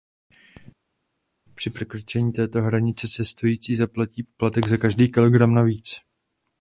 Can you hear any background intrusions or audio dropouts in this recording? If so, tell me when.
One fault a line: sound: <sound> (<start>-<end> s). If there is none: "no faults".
no faults